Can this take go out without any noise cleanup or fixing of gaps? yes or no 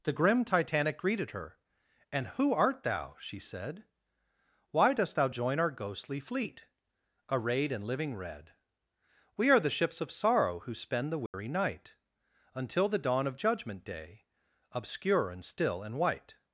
no